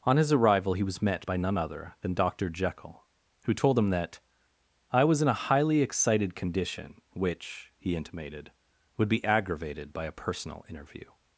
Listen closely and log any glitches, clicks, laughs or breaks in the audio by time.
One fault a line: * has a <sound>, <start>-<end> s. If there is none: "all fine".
all fine